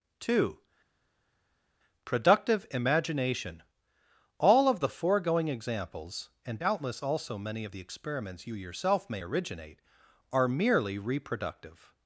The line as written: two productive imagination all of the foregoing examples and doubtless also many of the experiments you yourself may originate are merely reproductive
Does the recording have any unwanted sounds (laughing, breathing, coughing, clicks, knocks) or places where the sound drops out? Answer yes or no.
no